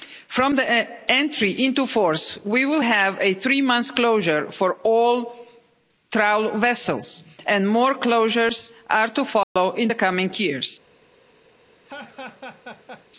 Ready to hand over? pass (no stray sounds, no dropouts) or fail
fail